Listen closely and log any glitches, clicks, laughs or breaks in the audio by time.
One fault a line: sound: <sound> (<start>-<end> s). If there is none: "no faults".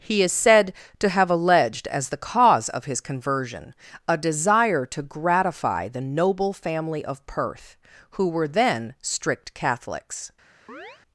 sound: chirp (10.7-11.0 s)